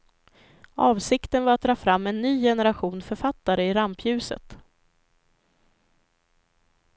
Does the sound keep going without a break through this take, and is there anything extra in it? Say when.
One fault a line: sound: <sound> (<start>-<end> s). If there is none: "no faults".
no faults